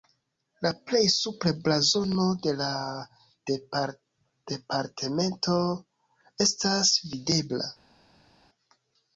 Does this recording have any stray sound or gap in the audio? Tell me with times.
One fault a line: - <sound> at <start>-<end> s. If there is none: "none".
none